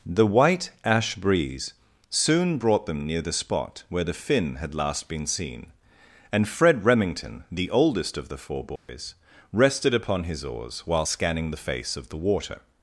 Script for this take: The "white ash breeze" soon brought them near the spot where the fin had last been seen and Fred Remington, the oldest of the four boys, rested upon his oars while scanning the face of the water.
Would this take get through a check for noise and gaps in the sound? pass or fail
fail